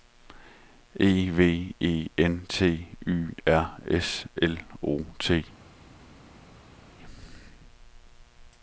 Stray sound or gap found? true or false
false